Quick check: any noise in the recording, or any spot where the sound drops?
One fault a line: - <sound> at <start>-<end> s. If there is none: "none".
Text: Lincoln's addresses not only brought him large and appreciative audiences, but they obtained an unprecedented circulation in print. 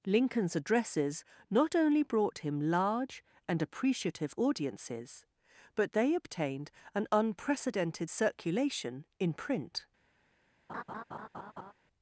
- laugh at 10.7-11.7 s